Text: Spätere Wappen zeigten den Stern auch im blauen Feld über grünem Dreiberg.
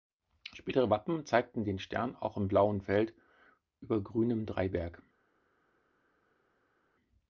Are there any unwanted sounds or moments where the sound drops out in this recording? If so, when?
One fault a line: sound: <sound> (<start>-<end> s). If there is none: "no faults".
no faults